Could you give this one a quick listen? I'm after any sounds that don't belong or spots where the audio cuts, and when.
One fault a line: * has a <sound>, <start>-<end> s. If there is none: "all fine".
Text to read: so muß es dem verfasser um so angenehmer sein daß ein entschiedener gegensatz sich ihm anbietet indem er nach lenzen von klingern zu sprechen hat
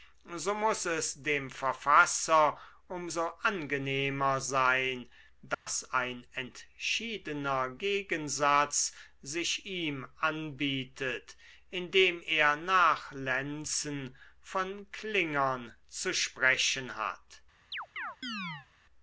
* has a dropout, 5.5-5.7 s
* has a chirp, 17.7-18.7 s